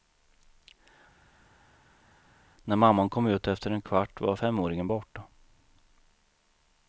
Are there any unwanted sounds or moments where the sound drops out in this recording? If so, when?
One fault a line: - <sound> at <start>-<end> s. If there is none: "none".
none